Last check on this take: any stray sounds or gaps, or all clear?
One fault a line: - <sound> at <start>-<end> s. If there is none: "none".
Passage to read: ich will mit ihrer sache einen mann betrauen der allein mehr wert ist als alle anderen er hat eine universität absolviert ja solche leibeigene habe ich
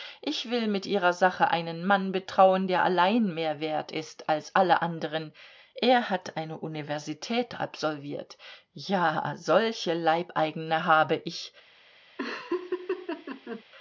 - laugh at 12.2-13.6 s